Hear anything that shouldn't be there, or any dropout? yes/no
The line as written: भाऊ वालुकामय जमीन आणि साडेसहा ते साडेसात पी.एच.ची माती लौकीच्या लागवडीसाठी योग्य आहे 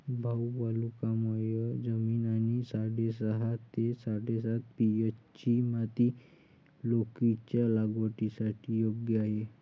no